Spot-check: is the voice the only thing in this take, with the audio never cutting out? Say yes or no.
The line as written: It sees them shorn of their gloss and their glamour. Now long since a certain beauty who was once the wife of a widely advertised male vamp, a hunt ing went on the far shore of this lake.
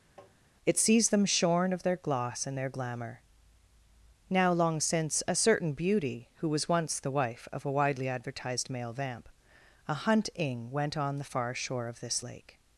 no